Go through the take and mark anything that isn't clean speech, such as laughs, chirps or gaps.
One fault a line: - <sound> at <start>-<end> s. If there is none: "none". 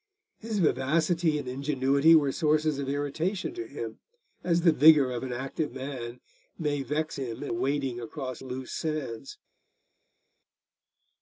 none